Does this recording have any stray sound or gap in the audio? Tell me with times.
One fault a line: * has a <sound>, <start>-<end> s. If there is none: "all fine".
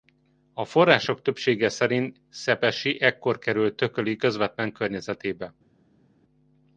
all fine